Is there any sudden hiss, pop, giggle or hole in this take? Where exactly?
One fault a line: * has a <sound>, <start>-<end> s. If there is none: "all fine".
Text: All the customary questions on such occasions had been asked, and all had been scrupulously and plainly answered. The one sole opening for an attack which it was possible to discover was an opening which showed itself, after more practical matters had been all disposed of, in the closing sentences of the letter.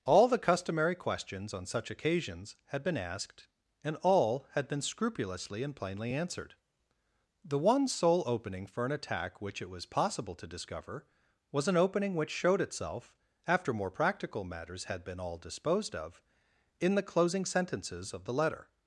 all fine